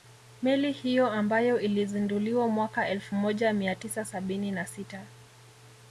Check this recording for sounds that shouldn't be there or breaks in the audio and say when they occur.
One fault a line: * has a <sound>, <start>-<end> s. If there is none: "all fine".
all fine